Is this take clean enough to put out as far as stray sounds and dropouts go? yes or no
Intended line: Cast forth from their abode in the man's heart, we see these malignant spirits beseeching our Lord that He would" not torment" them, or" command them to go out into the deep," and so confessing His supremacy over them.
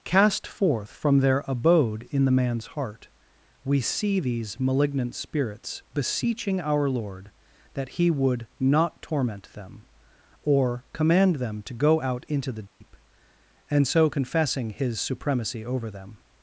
no